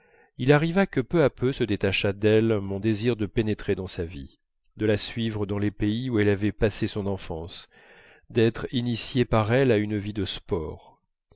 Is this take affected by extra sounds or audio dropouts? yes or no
no